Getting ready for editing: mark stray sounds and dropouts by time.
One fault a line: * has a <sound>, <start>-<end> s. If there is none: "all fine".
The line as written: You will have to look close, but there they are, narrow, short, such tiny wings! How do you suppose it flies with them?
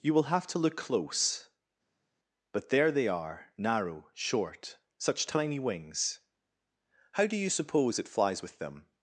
all fine